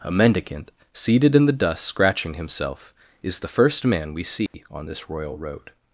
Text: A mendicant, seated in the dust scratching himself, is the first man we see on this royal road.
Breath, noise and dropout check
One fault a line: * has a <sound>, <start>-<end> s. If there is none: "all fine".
* has a dropout, 4.5-4.5 s